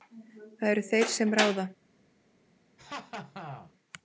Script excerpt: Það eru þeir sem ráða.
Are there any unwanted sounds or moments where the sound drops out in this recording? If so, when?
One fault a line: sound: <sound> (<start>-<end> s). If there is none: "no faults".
sound: laugh (2.8-3.7 s)